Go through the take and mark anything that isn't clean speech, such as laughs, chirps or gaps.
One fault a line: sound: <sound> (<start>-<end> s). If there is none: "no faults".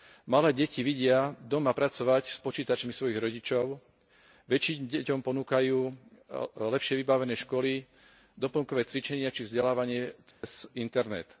sound: dropout (10.3-10.4 s)